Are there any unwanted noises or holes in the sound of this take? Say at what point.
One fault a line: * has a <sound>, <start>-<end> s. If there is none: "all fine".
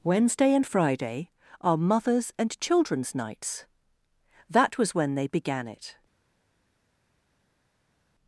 all fine